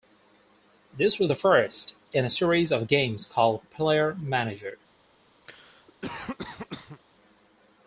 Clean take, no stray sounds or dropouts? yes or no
no